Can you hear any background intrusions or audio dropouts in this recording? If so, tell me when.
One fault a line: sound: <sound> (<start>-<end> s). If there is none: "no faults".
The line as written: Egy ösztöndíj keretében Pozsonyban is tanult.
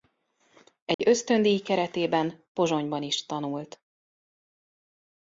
sound: dropout (0.9-1.0 s)